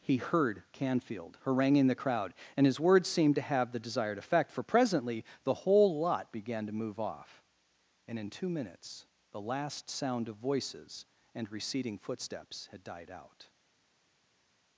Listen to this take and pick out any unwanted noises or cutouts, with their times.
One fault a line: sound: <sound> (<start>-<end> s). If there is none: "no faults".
no faults